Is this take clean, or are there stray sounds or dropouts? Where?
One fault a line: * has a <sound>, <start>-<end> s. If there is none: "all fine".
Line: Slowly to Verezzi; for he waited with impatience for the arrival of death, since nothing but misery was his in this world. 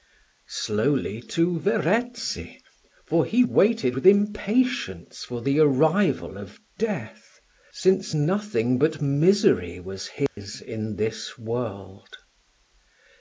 * has a dropout, 10.3-10.4 s